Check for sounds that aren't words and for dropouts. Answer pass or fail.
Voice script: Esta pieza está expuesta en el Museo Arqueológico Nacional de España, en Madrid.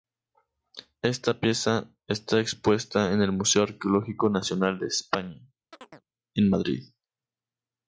fail